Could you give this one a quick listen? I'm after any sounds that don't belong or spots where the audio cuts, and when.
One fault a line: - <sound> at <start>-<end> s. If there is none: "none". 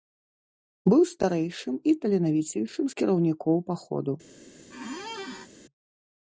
- squeak at 4.7-5.5 s